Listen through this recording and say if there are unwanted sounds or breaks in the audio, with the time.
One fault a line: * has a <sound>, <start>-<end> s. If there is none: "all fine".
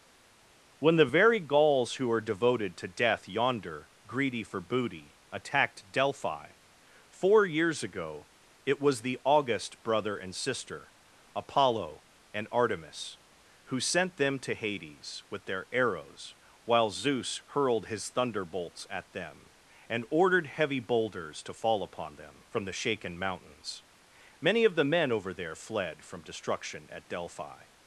all fine